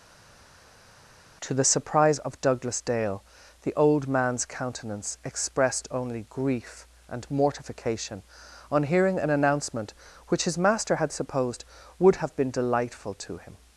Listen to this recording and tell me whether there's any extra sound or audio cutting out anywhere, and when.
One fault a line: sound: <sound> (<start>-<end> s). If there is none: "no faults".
no faults